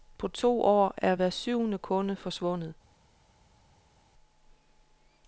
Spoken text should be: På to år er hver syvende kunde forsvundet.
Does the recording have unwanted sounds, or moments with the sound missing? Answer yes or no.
no